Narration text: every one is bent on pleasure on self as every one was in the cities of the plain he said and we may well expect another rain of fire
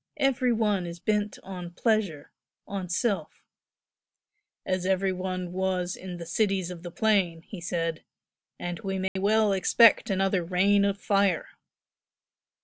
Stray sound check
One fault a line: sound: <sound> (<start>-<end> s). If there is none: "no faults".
sound: dropout (9.1-9.2 s)